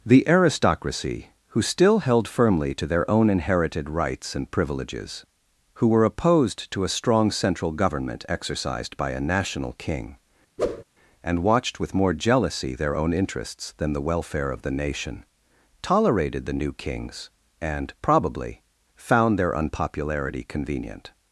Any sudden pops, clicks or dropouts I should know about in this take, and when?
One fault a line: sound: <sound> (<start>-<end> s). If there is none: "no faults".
sound: whoosh (10.6-10.8 s)